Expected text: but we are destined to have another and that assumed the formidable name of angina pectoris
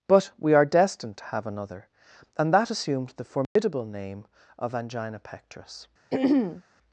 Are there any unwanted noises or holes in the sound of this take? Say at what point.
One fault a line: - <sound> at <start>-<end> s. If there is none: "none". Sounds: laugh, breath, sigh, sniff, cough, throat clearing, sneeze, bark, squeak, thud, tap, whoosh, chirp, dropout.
- dropout at 3.4-3.6 s
- throat clearing at 6.1-6.6 s